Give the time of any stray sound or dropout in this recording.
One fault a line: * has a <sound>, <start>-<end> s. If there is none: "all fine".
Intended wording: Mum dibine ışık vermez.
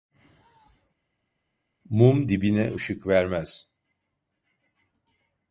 all fine